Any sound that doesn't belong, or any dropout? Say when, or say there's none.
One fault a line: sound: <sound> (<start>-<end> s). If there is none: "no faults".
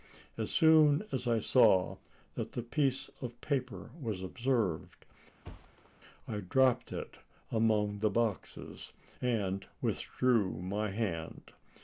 sound: thud (5.4-5.9 s)